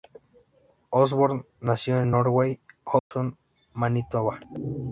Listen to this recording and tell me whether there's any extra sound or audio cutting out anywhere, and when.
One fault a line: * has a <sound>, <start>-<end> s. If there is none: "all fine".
* has a dropout, 3.0-3.1 s